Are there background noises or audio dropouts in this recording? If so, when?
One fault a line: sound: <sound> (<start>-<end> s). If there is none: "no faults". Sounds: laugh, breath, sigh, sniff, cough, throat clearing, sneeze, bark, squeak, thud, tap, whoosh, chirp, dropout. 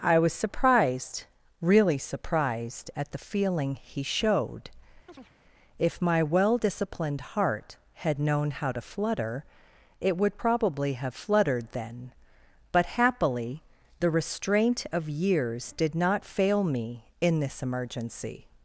sound: chirp (5.1-5.3 s)